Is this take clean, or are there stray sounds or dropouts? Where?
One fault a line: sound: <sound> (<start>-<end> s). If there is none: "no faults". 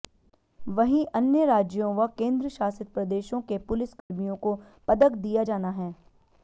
sound: dropout (4.0-4.1 s)